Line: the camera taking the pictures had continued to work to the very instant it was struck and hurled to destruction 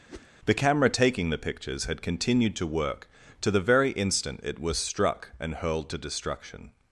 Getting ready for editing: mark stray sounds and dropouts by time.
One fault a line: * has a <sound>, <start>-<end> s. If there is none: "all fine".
* has a whoosh, 0.1-0.3 s